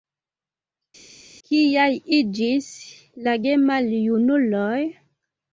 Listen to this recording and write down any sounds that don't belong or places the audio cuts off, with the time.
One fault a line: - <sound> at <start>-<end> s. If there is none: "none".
none